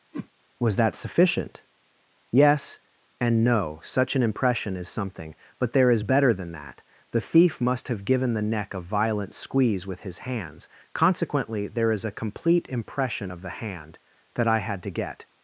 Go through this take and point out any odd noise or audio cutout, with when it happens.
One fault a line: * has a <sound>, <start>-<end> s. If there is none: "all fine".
* has a whoosh, 0.1-0.3 s